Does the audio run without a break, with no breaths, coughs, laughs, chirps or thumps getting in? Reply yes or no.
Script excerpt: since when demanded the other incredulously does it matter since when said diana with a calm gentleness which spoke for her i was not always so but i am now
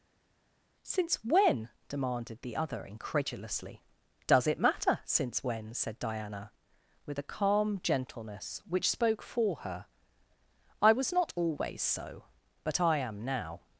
yes